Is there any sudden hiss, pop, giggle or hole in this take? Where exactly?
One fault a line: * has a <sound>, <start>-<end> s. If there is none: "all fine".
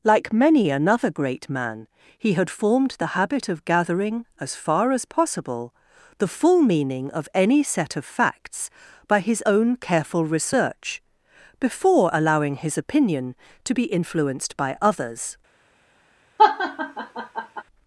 * has a laugh, 16.4-17.6 s